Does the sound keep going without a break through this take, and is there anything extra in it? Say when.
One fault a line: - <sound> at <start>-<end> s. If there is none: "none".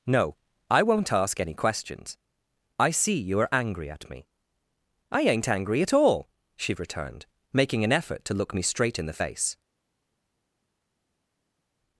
none